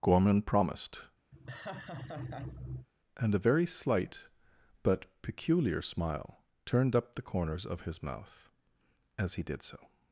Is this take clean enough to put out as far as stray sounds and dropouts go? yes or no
no